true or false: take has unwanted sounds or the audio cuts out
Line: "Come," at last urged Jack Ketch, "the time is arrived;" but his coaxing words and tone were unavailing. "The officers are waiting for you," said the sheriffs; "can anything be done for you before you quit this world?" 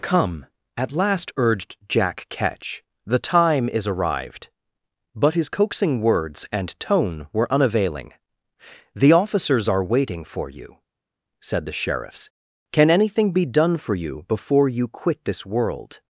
false